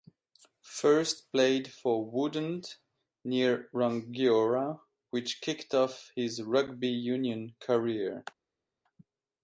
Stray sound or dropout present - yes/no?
no